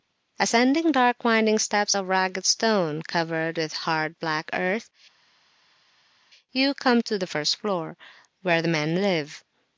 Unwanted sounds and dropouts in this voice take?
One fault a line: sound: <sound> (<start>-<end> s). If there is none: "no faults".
no faults